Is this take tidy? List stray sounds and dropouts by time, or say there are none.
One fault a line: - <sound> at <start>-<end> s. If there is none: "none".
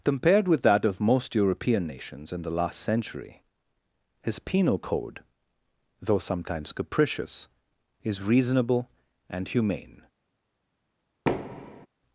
- thud at 11.3-11.9 s